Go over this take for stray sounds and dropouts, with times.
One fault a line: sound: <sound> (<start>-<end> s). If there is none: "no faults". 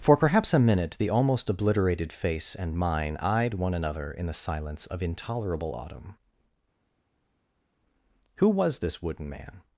no faults